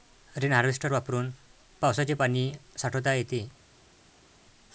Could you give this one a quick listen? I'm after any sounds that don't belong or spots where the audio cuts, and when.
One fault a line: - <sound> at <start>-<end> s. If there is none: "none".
none